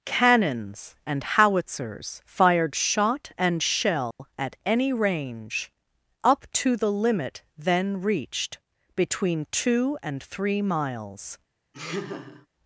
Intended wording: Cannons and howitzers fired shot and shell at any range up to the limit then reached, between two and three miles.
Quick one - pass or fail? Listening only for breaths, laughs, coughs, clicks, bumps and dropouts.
fail